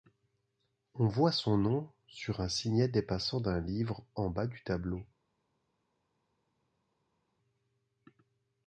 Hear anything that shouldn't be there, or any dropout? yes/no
no